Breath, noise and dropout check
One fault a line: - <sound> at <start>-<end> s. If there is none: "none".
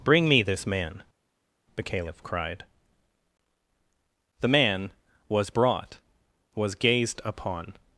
none